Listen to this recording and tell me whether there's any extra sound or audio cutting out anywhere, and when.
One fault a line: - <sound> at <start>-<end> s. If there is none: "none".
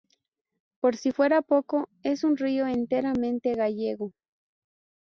none